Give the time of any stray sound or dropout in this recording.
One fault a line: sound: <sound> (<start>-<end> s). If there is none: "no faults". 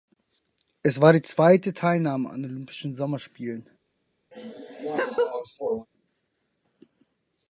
sound: laugh (4.3-5.9 s)